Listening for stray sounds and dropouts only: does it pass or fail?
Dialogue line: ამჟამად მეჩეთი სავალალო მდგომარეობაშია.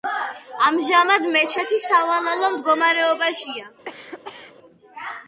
fail